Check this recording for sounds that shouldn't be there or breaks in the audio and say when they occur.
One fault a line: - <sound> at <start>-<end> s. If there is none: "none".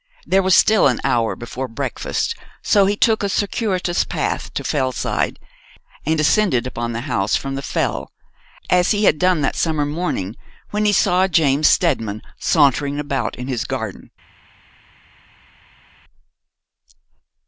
none